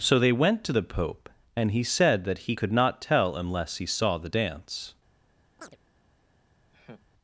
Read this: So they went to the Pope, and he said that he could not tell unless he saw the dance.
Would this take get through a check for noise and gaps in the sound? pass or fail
fail